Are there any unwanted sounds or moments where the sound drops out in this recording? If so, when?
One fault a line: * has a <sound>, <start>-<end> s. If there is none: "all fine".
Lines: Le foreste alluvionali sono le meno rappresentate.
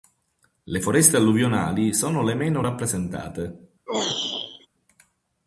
* has a throat clearing, 3.9-4.7 s